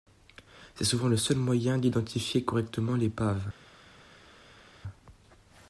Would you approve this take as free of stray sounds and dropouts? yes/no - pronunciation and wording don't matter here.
yes